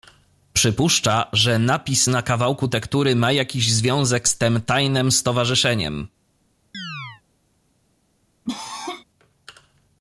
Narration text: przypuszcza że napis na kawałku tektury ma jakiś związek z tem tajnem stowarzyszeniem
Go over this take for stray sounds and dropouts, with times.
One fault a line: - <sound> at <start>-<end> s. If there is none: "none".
- chirp at 6.7-7.2 s
- cough at 8.5-9.0 s